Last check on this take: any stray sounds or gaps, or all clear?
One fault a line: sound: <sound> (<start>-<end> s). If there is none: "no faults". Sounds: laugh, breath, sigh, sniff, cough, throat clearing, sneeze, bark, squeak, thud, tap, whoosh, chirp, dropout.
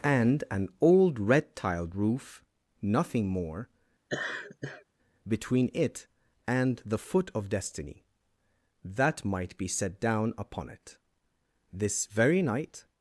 sound: laugh (4.1-4.8 s)